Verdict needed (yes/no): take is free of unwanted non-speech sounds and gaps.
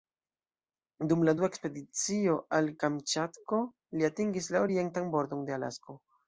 yes